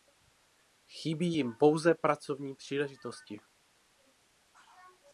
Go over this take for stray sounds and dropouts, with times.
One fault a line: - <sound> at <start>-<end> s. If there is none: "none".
none